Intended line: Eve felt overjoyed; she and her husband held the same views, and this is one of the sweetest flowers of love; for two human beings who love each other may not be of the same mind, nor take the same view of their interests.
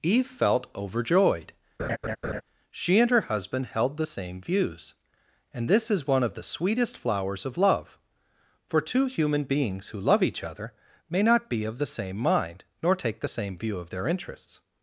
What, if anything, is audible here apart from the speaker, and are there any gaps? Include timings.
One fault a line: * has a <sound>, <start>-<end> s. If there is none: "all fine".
* has a laugh, 1.8-2.4 s